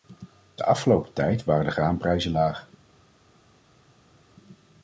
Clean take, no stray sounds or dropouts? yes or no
yes